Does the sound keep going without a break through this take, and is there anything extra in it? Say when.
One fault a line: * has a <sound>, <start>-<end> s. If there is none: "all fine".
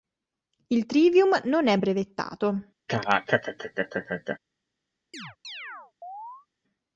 * has a laugh, 2.9-4.4 s
* has a chirp, 5.1-6.5 s